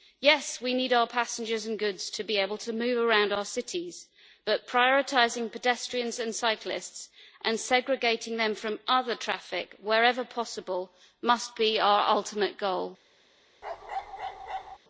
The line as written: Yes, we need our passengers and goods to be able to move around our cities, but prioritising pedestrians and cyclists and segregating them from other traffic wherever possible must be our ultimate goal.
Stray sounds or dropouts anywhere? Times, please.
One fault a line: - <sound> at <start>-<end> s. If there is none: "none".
- bark at 13.6-14.8 s